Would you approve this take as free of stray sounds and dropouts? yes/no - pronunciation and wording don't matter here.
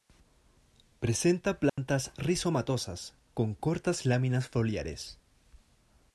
no